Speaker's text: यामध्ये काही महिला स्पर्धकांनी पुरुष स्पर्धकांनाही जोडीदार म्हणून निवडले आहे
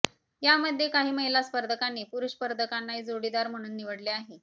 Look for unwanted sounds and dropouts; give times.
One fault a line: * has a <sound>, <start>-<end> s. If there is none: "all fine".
all fine